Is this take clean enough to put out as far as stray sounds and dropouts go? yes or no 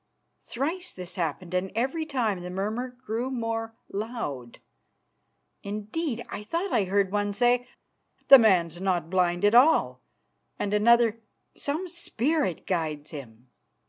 yes